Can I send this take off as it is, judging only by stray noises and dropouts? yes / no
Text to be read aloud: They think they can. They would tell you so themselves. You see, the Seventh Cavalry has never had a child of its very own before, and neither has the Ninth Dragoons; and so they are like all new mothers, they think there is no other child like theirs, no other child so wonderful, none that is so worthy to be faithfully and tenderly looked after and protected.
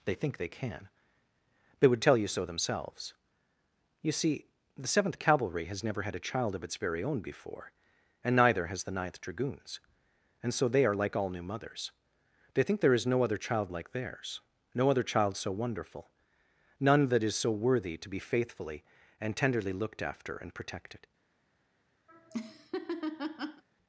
no